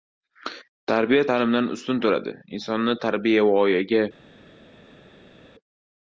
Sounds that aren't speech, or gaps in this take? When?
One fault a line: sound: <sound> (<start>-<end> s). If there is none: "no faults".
no faults